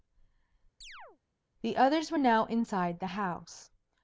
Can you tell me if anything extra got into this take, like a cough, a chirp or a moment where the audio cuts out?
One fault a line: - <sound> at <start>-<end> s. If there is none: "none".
- chirp at 0.8-1.2 s